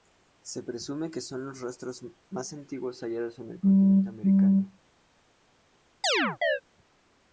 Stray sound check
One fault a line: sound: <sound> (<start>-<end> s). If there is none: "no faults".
sound: chirp (6.0-6.6 s)